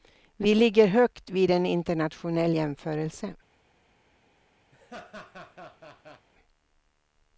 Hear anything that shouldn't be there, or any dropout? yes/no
yes